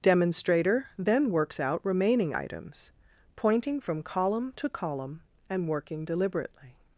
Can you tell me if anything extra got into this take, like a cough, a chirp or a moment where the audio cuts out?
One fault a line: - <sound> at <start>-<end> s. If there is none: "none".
none